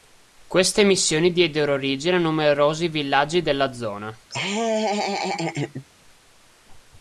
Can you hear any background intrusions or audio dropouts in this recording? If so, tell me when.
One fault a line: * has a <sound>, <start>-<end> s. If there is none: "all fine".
* has a laugh, 4.3-5.8 s